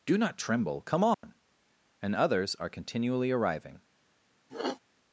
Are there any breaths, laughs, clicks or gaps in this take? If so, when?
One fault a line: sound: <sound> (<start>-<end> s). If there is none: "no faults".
sound: dropout (1.1-1.2 s)
sound: sniff (4.5-4.8 s)